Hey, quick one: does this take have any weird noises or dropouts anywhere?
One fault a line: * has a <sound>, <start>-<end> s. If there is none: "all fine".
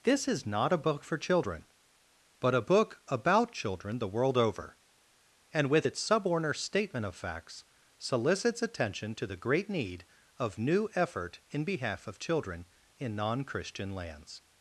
all fine